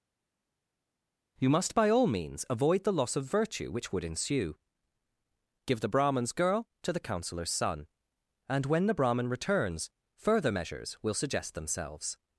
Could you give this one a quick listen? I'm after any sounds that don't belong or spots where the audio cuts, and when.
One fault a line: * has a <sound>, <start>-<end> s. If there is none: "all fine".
all fine